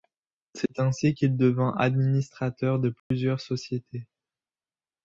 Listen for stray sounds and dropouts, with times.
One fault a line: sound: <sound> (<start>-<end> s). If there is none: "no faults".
sound: dropout (3.0-3.1 s)